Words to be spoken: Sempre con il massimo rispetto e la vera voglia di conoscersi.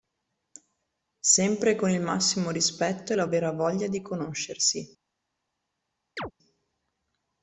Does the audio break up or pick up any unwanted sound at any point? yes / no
yes